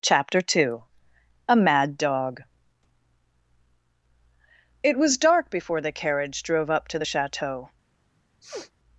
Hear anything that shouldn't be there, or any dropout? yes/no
yes